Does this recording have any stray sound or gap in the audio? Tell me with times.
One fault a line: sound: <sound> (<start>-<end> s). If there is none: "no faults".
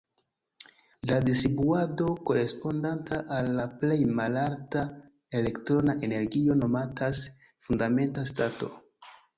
no faults